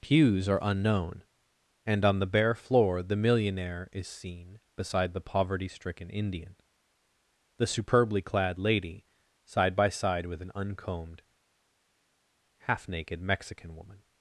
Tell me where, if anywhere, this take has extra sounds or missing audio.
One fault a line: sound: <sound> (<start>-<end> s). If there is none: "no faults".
no faults